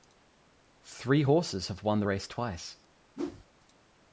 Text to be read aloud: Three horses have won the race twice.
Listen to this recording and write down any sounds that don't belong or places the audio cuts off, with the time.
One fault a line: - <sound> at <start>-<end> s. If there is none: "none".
- whoosh at 3.1-3.5 s